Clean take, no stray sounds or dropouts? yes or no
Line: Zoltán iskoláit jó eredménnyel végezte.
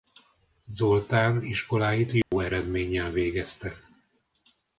no